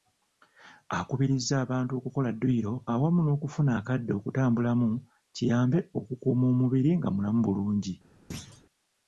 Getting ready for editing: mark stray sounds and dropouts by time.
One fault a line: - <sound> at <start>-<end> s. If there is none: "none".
- thud at 8.3-8.6 s